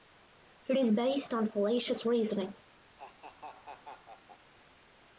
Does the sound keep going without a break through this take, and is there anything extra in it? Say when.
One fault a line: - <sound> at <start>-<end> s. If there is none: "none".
- laugh at 3.0-4.5 s